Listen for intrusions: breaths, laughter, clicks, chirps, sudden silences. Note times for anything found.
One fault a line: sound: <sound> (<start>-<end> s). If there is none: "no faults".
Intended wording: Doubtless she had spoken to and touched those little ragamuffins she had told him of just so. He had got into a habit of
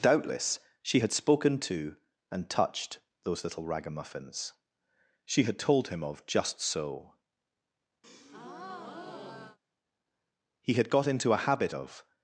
sound: breath (8.0-9.6 s)